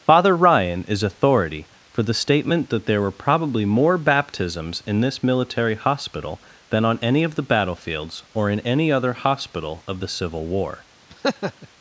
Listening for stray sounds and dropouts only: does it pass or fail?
fail